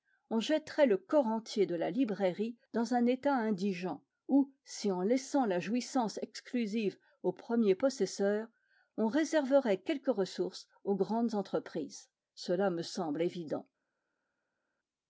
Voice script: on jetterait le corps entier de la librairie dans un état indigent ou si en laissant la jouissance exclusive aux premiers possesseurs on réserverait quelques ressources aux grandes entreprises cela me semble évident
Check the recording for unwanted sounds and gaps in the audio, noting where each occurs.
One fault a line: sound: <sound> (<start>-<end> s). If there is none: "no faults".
no faults